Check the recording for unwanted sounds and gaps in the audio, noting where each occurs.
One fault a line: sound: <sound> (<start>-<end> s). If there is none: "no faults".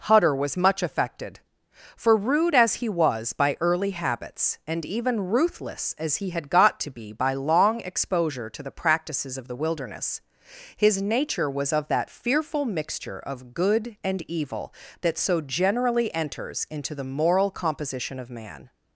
no faults